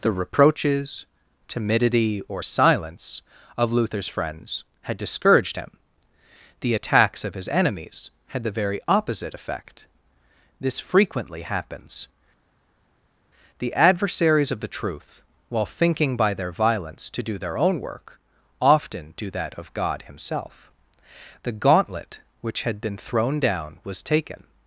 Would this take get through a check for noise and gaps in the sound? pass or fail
pass